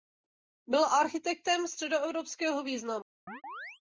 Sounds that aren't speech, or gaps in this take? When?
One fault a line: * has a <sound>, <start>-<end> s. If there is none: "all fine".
* has a chirp, 3.3-3.8 s